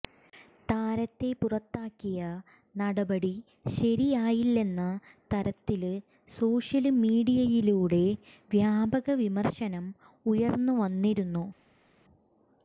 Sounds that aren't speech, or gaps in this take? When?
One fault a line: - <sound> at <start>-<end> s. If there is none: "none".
none